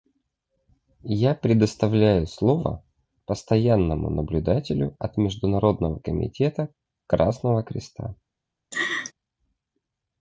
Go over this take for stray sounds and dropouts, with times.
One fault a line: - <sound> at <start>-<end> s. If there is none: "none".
- laugh at 8.7-9.1 s